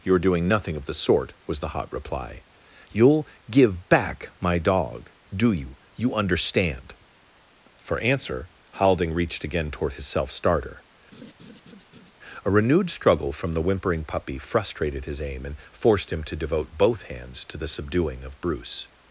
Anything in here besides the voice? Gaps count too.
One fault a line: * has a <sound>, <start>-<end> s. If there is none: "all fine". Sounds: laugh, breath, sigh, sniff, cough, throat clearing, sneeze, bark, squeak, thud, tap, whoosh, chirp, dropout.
* has a laugh, 11.1-12.1 s